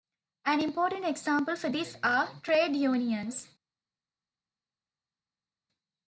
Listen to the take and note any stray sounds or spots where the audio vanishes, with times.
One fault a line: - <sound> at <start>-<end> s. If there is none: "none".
none